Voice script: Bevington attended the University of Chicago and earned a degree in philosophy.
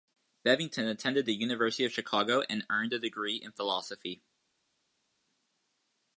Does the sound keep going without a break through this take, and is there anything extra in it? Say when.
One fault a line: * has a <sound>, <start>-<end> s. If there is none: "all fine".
all fine